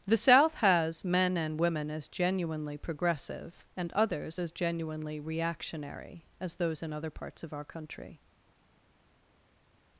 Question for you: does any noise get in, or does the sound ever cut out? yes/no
no